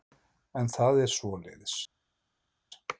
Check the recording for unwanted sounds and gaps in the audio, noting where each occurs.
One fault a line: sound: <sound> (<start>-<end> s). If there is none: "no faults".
no faults